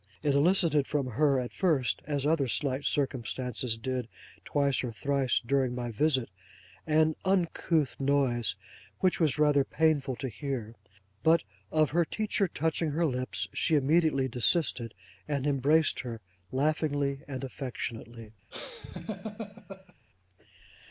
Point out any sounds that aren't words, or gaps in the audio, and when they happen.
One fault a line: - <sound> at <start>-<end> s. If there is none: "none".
- laugh at 18.5-19.9 s